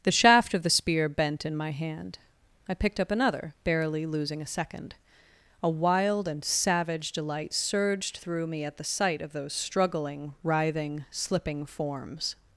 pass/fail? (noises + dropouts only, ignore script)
pass